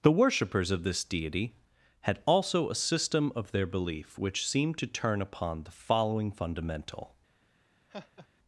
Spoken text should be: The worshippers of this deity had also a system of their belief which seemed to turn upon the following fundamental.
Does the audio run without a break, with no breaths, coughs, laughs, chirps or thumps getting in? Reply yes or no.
no